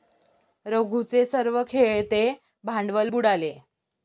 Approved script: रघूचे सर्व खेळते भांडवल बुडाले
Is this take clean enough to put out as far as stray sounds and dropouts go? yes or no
yes